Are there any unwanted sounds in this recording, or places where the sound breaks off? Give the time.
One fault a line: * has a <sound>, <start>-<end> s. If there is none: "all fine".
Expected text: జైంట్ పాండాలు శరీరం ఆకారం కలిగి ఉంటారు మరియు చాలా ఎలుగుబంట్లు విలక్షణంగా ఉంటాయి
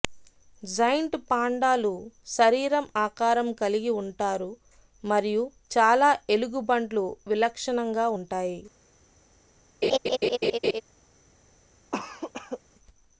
* has a laugh, 9.8-10.8 s
* has a cough, 11.9-12.6 s